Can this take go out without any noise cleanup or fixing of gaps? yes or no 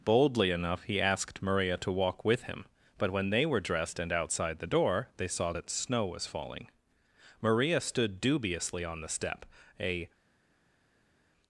yes